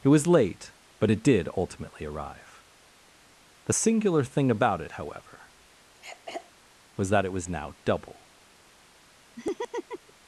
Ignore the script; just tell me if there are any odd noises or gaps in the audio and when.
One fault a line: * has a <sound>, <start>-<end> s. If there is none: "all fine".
* has a throat clearing, 6.0-6.5 s
* has a laugh, 9.4-10.1 s